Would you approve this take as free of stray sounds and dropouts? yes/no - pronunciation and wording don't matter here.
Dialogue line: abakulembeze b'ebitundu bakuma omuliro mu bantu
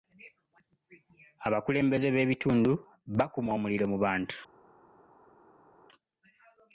yes